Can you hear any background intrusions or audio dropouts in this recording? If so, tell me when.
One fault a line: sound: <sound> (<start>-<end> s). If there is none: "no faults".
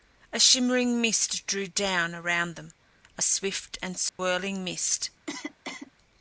sound: dropout (4.1-4.2 s)
sound: cough (5.3-5.9 s)